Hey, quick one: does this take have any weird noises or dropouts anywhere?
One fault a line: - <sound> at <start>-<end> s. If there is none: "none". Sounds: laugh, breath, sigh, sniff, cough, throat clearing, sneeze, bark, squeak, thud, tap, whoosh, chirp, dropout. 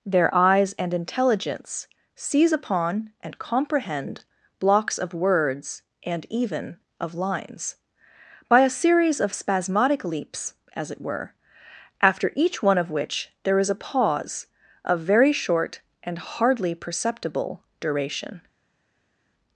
none